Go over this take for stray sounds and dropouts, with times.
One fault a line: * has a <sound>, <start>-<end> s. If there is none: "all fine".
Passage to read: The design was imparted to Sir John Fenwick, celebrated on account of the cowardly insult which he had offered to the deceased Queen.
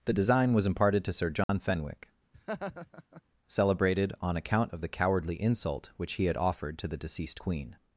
* has a dropout, 1.4-1.5 s
* has a laugh, 2.3-3.2 s